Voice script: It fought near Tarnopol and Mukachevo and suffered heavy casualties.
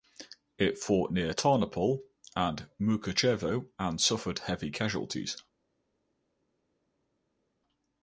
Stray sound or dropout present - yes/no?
no